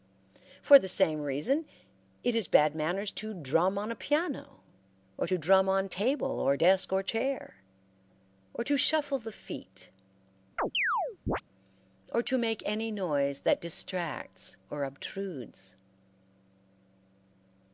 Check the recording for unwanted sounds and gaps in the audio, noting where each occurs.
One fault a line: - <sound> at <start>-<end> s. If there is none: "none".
- chirp at 10.6-11.4 s